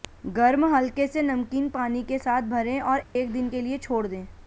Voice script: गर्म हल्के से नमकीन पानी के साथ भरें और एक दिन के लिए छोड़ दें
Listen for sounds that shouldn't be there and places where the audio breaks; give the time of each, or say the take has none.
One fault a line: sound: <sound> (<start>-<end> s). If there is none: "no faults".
sound: dropout (3.0-3.2 s)